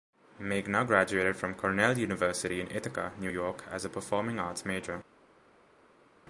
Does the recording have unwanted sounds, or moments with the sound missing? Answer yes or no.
no